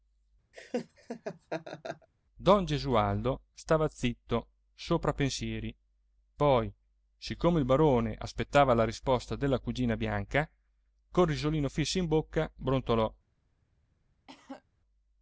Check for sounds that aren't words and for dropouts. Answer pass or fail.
fail